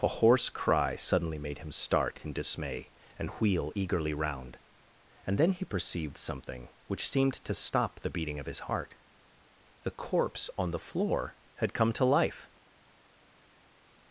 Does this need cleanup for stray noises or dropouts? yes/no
no